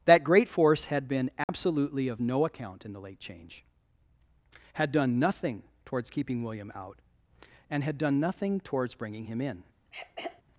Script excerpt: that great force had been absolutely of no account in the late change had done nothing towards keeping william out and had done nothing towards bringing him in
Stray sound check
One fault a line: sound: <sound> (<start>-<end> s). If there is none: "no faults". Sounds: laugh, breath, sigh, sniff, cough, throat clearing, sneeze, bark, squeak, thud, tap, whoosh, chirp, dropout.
sound: dropout (1.4-1.5 s)
sound: throat clearing (9.9-10.4 s)